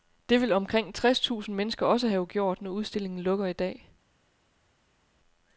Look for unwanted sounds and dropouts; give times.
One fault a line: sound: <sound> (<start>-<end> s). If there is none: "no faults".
no faults